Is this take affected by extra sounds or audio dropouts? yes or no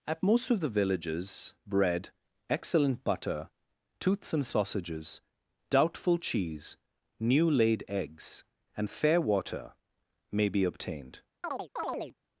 yes